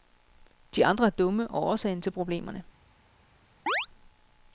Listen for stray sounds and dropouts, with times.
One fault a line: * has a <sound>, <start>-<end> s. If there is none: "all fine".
* has a chirp, 3.7-3.9 s